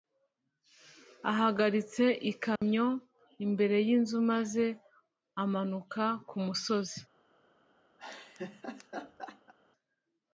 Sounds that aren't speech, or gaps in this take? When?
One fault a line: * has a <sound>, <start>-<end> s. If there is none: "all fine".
* has a dropout, 2.6-2.6 s
* has a laugh, 8.0-9.5 s